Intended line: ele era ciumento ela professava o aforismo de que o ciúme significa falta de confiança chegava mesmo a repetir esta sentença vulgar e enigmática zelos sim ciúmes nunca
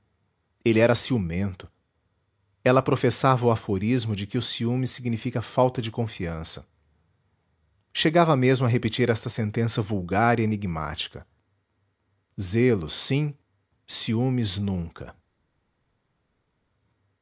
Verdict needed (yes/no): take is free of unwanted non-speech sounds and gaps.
yes